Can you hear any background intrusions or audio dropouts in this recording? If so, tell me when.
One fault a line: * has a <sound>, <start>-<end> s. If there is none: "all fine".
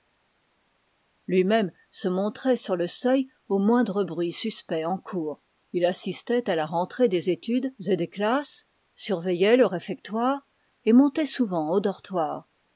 all fine